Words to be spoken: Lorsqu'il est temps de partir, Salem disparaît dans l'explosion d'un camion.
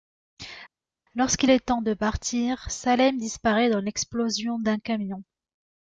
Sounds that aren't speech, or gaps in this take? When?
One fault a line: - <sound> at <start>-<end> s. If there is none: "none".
none